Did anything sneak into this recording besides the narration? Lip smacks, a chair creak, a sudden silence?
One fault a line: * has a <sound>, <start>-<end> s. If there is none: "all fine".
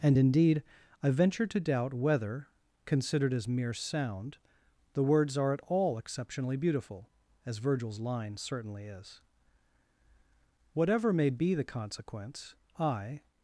all fine